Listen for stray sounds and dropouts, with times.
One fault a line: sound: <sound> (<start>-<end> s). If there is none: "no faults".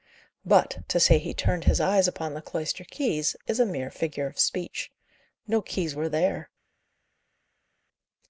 no faults